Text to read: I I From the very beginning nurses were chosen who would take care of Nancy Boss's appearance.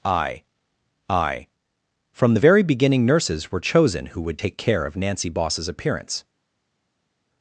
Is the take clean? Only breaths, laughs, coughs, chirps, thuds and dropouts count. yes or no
yes